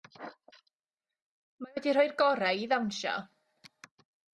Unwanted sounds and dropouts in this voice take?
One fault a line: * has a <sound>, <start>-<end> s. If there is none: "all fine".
all fine